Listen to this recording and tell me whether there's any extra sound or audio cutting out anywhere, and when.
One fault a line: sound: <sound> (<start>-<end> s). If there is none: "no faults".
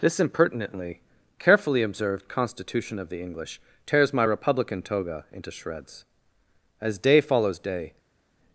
no faults